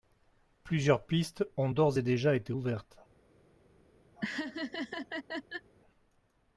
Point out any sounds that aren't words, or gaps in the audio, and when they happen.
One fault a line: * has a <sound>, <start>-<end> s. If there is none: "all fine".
* has a laugh, 4.2-5.7 s